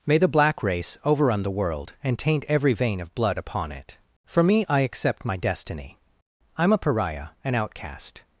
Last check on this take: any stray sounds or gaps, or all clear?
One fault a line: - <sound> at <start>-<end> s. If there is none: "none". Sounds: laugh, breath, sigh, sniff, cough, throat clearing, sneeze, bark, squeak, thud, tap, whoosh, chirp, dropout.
none